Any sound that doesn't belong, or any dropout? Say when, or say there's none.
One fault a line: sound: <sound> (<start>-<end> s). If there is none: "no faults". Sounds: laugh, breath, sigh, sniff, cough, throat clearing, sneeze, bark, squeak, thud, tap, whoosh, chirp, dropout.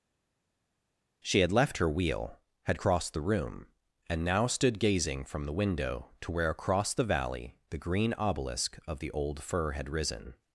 no faults